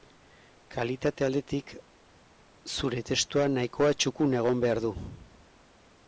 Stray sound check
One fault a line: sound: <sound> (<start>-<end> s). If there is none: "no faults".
no faults